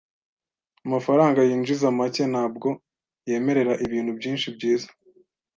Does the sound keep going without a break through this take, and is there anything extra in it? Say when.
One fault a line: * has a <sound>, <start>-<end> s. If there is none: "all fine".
all fine